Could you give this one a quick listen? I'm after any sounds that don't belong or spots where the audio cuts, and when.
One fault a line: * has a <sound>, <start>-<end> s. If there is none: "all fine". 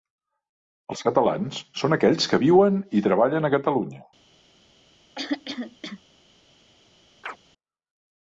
* has a throat clearing, 5.2-6.0 s
* has a chirp, 7.2-7.4 s